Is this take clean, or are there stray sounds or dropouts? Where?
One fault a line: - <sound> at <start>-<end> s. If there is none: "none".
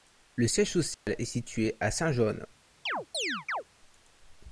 - dropout at 0.9-1.1 s
- chirp at 2.9-3.6 s